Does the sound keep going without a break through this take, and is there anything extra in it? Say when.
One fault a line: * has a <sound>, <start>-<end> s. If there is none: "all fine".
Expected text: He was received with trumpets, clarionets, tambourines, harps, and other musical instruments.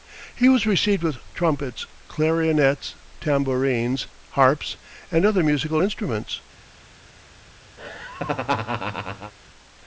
* has a laugh, 7.8-9.3 s